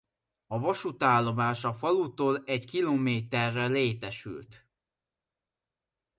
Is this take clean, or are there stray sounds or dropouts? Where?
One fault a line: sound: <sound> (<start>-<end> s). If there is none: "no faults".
no faults